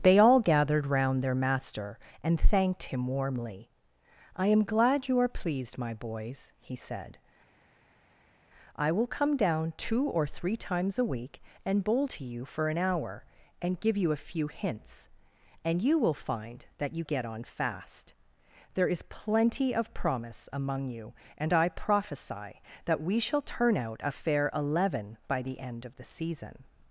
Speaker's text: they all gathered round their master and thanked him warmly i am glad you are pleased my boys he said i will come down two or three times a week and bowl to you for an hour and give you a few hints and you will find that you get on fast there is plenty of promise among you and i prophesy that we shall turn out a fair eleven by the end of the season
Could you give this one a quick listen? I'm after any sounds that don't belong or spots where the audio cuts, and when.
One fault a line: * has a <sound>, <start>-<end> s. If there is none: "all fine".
all fine